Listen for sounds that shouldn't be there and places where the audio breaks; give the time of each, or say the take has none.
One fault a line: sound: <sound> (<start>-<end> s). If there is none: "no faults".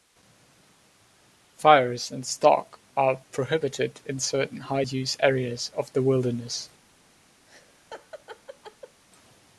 sound: laugh (7.5-9.0 s)